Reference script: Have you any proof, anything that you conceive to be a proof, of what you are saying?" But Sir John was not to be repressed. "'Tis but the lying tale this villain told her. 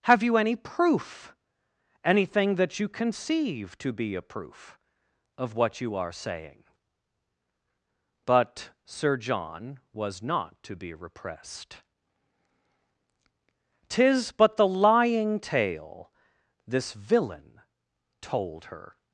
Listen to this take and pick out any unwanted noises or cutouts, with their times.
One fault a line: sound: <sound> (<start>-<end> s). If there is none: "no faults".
no faults